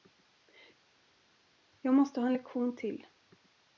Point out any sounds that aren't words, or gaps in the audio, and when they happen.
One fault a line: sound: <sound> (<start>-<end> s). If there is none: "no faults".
no faults